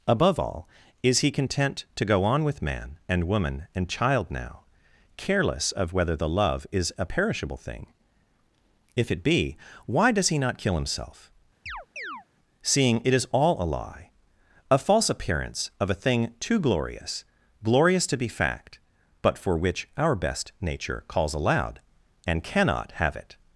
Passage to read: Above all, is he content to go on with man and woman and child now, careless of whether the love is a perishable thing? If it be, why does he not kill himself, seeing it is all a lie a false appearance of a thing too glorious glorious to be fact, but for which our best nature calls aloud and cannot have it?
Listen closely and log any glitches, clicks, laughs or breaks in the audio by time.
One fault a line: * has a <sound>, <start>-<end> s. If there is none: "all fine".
* has a chirp, 11.7-12.3 s